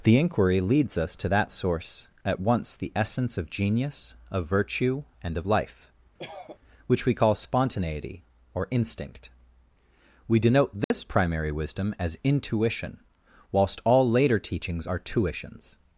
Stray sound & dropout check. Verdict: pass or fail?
fail